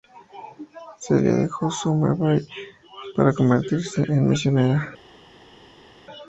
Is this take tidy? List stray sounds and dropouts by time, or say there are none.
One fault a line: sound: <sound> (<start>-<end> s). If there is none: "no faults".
no faults